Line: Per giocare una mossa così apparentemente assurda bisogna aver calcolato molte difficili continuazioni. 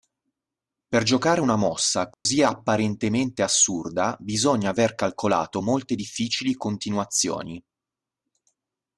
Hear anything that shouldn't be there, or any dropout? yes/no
yes